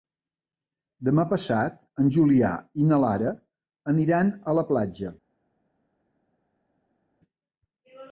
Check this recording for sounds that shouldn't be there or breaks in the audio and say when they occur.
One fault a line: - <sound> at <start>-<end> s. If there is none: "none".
none